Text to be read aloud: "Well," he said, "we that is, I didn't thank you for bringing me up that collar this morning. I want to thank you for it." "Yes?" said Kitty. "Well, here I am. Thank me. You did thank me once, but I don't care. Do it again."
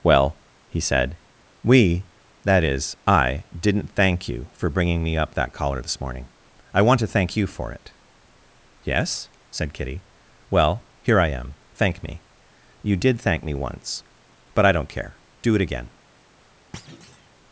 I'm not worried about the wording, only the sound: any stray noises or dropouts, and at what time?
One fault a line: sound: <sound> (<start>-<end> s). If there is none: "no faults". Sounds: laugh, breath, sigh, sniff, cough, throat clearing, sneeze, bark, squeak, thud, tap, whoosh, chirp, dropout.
sound: thud (16.7-17.3 s)